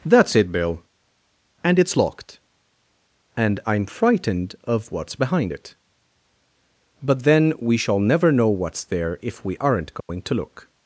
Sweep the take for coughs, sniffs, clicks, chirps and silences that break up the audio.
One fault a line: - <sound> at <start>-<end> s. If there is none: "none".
- dropout at 10.0-10.1 s